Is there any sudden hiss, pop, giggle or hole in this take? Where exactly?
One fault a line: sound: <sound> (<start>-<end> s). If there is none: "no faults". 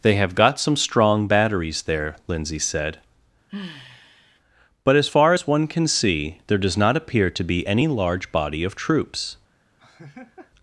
sound: sigh (3.5-4.4 s)
sound: laugh (9.8-10.5 s)